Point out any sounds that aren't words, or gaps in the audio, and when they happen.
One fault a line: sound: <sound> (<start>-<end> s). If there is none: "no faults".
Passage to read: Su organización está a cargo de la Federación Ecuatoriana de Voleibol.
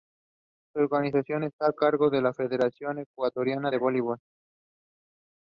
no faults